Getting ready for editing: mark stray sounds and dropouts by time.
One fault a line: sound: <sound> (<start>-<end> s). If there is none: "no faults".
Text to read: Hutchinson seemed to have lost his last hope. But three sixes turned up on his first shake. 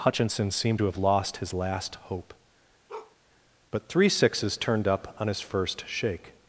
sound: bark (2.9-3.2 s)